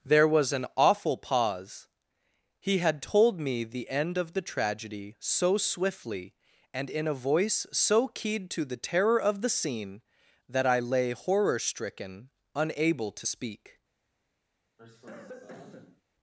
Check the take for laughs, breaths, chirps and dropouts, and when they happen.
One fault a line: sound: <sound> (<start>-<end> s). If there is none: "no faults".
sound: cough (14.8-16.0 s)